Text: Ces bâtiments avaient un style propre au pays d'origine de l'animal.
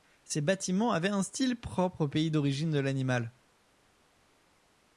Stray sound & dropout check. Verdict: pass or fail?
pass